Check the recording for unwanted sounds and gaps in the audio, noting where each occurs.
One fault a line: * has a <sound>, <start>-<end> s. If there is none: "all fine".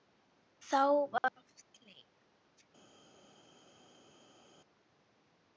all fine